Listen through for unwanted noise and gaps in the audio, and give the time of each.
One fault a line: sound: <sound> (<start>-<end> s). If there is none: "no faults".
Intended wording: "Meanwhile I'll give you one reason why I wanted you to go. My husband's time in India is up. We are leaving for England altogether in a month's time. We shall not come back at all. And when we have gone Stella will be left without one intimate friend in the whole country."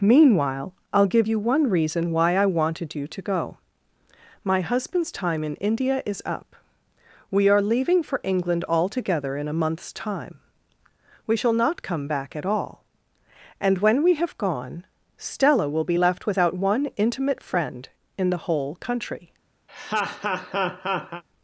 sound: laugh (19.7-21.2 s)